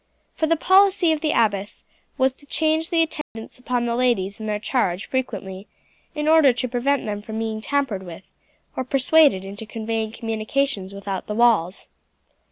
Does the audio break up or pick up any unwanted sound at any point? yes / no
yes